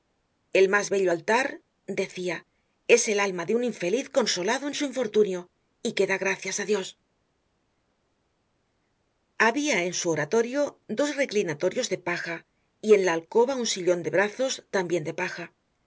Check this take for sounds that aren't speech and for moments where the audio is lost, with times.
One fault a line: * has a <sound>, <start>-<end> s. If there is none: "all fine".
all fine